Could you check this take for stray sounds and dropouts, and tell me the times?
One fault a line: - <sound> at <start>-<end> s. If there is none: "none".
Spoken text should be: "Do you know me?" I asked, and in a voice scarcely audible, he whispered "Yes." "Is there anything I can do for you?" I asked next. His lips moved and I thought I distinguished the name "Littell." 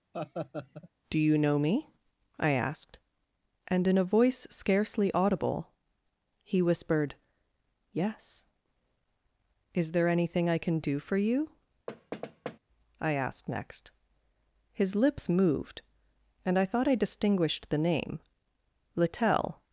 - laugh at 0.1-0.9 s
- thud at 11.9-12.6 s